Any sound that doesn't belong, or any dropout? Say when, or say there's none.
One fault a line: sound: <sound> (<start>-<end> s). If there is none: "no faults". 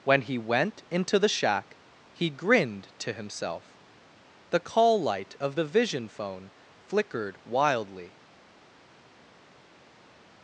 no faults